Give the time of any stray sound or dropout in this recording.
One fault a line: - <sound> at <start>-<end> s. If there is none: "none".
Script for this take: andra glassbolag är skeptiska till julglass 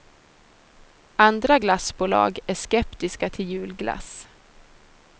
none